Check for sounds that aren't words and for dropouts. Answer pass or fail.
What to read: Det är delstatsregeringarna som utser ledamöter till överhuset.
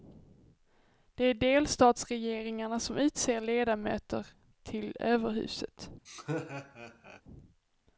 fail